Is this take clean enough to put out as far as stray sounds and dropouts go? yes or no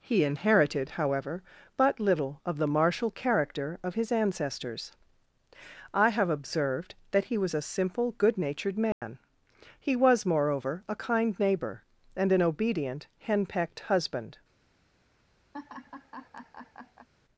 no